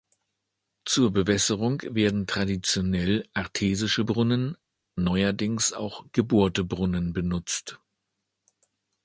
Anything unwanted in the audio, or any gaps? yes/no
no